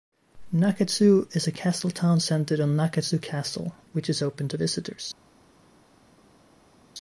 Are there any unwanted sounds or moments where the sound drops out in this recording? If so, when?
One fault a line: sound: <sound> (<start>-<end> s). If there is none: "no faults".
no faults